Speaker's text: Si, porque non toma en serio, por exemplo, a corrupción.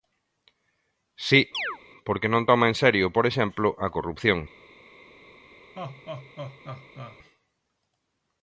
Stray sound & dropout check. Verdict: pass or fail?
fail